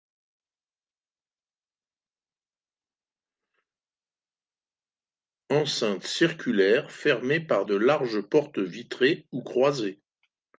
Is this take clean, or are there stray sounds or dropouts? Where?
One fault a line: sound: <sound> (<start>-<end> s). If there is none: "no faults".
no faults